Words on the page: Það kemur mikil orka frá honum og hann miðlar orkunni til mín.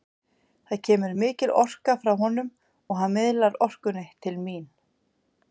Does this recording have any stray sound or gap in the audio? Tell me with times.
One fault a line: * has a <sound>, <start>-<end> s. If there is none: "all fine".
all fine